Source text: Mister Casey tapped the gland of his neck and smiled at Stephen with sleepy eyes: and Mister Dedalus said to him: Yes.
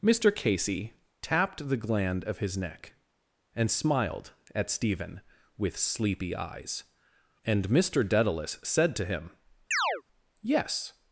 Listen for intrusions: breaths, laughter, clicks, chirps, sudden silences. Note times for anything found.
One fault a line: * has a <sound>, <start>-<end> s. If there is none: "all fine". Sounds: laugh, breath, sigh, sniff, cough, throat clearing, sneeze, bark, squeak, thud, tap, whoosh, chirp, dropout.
* has a chirp, 9.7-10.0 s